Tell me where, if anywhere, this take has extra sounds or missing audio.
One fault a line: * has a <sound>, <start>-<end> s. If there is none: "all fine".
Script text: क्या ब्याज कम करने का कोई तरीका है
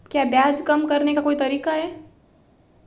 all fine